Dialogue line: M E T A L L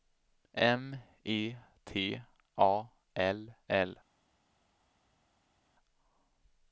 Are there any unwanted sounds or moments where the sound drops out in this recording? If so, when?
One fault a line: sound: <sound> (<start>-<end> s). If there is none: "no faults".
no faults